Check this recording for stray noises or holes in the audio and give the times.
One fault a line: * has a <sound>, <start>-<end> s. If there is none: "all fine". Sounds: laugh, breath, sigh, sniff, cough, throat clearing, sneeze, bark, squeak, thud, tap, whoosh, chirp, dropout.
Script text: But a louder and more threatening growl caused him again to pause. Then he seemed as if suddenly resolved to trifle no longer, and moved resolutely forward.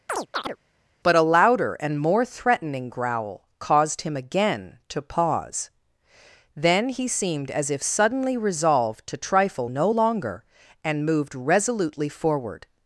* has a chirp, 0.1-0.6 s